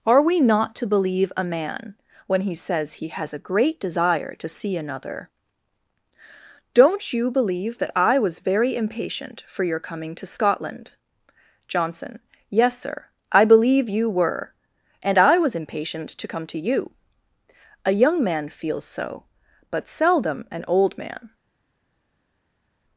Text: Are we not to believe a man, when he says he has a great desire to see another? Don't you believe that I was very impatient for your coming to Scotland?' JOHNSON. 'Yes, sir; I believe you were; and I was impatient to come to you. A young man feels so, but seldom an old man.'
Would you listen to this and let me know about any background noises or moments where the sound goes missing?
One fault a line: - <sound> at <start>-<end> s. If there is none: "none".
none